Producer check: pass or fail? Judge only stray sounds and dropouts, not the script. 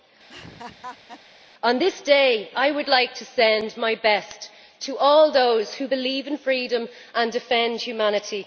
fail